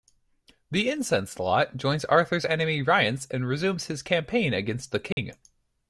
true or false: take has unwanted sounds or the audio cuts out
true